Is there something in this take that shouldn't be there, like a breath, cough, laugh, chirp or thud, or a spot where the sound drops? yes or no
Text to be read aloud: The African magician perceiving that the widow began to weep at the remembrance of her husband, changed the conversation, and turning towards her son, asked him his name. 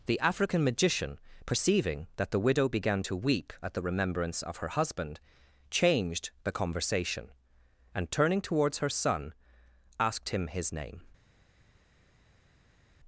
no